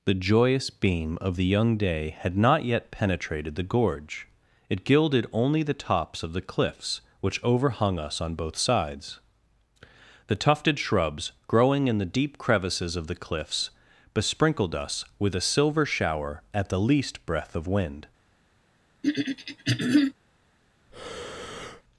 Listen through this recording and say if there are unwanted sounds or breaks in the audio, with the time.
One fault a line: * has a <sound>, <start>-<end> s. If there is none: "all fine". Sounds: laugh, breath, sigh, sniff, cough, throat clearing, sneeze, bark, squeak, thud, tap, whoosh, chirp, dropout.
* has a throat clearing, 19.0-20.1 s
* has a breath, 20.9-21.8 s